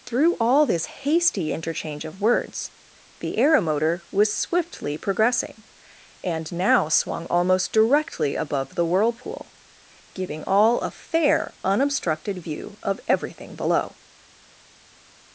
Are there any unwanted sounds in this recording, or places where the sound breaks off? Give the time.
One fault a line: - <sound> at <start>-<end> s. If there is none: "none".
none